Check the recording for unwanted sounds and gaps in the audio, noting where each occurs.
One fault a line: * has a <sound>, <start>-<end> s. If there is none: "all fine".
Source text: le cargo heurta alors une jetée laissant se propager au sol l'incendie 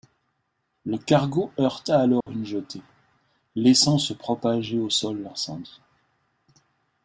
* has a dropout, 2.2-2.3 s